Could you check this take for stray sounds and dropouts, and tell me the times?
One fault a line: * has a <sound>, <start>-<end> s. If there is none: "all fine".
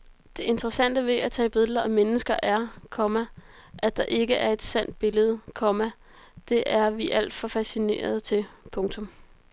all fine